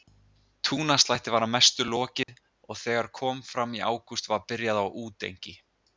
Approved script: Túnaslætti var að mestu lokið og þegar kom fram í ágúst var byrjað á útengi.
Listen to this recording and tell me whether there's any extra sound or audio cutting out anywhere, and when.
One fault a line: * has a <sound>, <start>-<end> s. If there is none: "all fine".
* has a dropout, 2.2-2.3 s